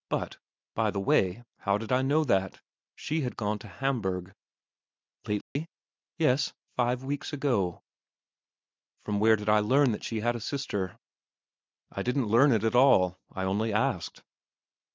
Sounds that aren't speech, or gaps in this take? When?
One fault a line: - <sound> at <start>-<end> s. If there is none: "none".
- dropout at 5.4-5.6 s